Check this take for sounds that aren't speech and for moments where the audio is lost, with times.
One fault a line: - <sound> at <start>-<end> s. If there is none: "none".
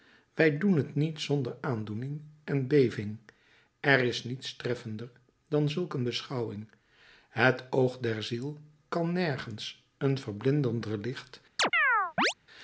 - chirp at 11.6-12.3 s